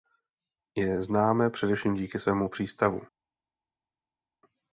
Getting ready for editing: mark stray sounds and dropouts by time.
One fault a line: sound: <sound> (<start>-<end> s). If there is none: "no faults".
no faults